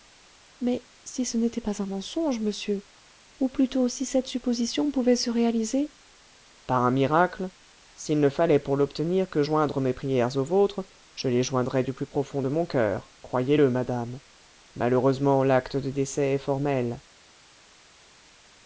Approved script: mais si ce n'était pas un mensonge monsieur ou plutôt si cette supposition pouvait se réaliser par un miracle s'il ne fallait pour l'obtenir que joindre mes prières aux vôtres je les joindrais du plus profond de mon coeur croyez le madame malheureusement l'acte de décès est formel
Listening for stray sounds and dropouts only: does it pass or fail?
pass